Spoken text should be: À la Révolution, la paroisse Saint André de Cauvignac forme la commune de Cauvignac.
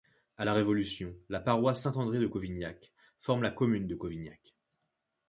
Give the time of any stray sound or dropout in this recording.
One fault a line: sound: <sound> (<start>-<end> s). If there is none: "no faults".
no faults